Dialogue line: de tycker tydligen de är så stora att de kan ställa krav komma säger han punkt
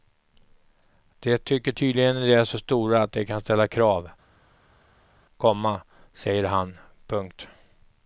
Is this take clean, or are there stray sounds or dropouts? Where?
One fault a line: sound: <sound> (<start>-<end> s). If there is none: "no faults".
no faults